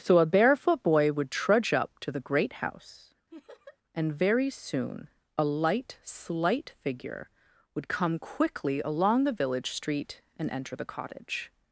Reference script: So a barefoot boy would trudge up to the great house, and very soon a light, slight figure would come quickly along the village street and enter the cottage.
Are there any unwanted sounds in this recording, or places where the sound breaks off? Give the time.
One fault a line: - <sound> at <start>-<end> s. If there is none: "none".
- laugh at 3.3-3.8 s